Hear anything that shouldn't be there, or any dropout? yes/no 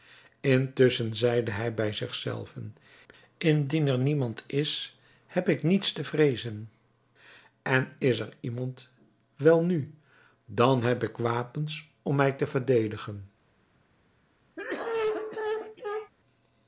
yes